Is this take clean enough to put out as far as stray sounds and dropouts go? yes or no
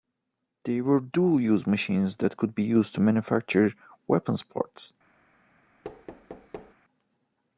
no